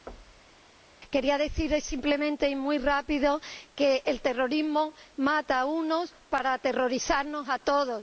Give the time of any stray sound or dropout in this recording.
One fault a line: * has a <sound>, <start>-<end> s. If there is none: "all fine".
* has a thud, 0.1-0.6 s